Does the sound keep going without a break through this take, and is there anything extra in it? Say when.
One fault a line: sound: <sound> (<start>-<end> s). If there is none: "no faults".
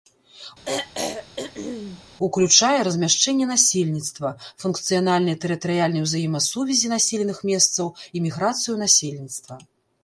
sound: throat clearing (0.7-2.0 s)